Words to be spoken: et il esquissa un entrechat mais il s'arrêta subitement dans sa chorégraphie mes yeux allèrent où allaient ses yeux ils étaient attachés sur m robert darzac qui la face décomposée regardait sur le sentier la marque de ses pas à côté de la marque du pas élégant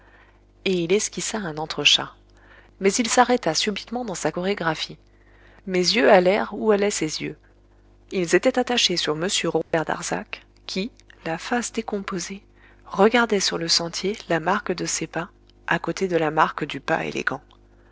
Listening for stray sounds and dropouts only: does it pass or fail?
fail